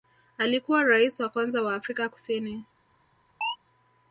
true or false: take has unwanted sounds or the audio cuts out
true